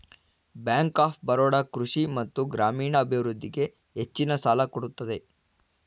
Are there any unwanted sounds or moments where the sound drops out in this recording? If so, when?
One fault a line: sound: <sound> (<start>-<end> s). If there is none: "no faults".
no faults